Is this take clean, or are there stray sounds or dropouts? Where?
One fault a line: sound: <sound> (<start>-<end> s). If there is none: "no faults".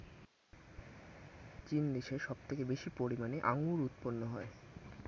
no faults